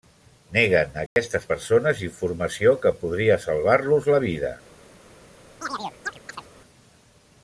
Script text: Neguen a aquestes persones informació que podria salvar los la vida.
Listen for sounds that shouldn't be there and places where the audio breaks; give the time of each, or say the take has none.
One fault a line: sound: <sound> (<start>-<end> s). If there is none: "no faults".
sound: dropout (1.1-1.2 s)
sound: chirp (5.6-6.5 s)